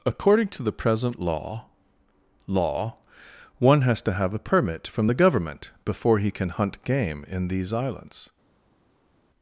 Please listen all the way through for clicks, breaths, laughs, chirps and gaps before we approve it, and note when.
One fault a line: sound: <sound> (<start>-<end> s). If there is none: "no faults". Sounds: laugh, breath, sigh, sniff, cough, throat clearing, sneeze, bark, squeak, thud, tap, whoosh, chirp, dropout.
no faults